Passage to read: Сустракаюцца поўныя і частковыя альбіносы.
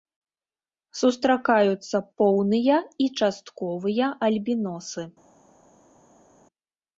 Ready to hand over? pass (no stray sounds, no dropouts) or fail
pass